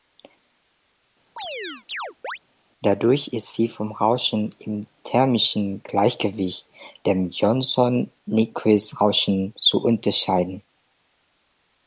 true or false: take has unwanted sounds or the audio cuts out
true